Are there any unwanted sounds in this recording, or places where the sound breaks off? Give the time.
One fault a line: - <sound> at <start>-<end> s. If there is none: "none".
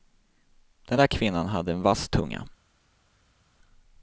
none